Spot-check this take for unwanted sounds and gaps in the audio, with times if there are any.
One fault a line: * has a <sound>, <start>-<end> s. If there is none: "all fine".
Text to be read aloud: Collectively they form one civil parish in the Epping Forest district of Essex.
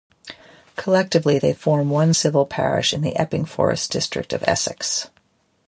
all fine